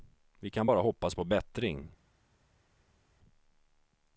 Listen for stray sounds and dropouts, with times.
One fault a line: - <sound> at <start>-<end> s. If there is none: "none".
none